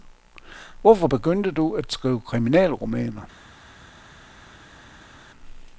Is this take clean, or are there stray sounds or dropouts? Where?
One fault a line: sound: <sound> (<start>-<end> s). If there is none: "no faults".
no faults